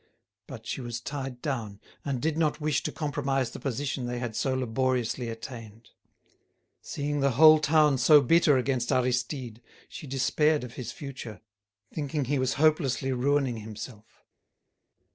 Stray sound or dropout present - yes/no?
no